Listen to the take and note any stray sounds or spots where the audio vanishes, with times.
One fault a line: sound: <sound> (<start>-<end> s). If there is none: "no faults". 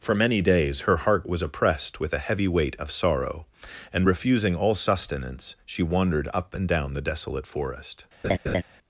sound: laugh (8.2-8.6 s)